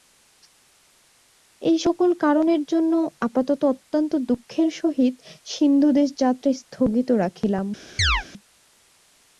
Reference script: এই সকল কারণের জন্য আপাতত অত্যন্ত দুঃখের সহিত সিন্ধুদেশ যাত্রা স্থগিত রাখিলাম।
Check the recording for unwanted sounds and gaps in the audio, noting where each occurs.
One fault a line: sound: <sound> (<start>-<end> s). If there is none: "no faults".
sound: chirp (8.0-8.2 s)